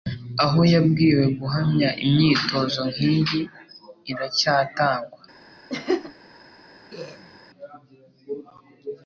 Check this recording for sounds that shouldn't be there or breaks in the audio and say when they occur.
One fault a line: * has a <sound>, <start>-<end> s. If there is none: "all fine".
* has a laugh, 5.7-6.1 s
* has a throat clearing, 6.9-7.4 s